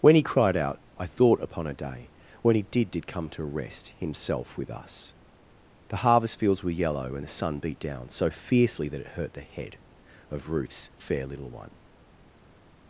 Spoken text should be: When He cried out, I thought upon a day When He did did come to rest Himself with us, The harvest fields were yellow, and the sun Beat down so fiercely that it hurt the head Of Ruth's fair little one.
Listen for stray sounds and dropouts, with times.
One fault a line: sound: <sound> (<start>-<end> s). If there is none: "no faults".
no faults